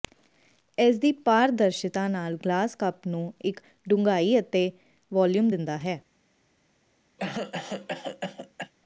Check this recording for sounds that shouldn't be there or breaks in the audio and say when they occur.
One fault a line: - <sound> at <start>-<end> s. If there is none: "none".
- cough at 7.2-8.7 s